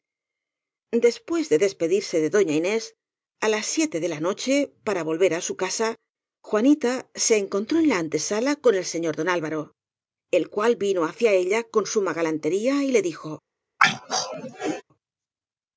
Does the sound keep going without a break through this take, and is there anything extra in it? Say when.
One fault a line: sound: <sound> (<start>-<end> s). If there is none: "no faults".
sound: throat clearing (13.8-14.8 s)